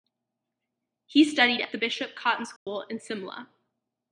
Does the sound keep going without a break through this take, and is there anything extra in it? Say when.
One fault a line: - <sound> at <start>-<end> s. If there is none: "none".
- dropout at 2.6-2.7 s